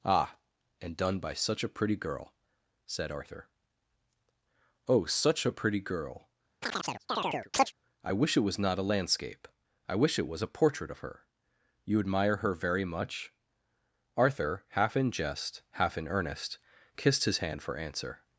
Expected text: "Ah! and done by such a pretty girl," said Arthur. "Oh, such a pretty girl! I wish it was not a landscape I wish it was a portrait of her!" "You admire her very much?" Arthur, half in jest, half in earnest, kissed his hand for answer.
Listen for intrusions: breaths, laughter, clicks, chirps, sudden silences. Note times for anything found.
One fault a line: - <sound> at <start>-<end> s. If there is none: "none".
- chirp at 6.6-7.7 s